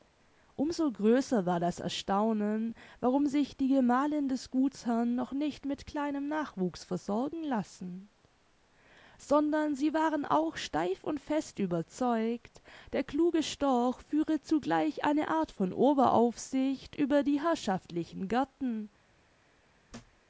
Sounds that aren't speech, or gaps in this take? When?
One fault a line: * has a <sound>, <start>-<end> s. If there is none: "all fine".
* has a thud, 19.9-20.2 s